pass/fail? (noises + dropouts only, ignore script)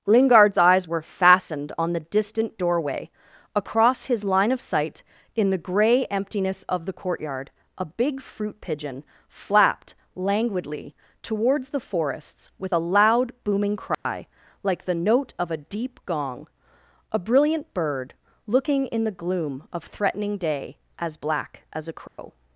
fail